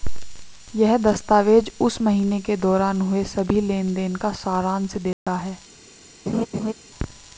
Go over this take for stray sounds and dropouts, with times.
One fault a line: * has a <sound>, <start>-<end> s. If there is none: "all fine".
* has a dropout, 5.1-5.3 s
* has a laugh, 6.3-6.7 s